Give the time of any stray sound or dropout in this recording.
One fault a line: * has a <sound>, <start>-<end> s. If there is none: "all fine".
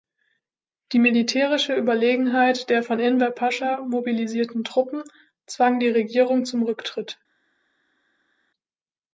all fine